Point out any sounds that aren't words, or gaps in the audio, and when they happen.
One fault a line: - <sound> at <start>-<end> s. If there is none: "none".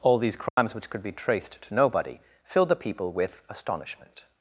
- dropout at 0.5-0.6 s